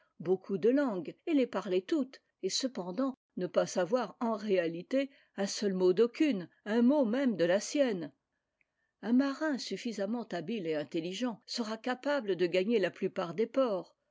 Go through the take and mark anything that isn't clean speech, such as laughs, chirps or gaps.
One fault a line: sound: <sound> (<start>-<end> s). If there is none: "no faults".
no faults